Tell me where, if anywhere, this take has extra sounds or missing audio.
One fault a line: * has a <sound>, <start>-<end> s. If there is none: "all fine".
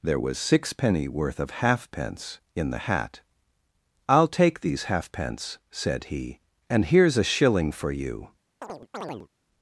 * has a chirp, 8.6-9.3 s